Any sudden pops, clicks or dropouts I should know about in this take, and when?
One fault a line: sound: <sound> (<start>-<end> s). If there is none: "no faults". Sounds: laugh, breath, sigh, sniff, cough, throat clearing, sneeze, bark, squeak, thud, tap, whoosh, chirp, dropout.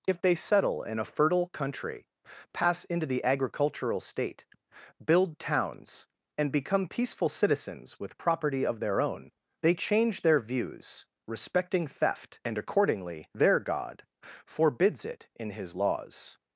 no faults